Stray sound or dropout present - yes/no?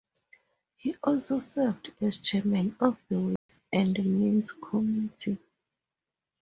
yes